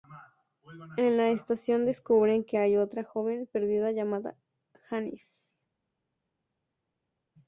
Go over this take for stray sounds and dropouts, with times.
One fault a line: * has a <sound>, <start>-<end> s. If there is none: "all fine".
all fine